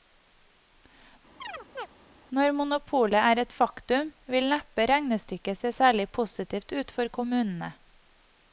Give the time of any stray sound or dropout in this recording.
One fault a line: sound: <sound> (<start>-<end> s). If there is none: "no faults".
sound: chirp (1.4-1.9 s)